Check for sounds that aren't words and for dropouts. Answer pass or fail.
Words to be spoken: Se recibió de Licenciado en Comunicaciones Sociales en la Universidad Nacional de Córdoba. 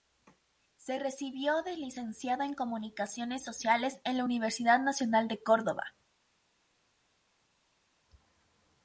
pass